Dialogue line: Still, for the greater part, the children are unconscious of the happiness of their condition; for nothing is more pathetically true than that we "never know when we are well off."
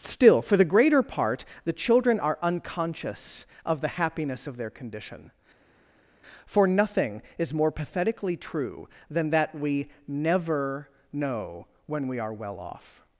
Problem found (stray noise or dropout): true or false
false